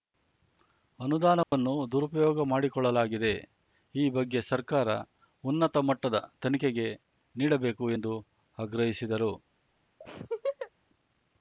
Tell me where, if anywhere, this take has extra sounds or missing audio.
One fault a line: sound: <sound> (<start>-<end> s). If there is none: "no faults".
sound: dropout (1.4-1.5 s)
sound: laugh (10.0-10.7 s)